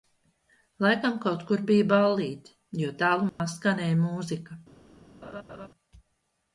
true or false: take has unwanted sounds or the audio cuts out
true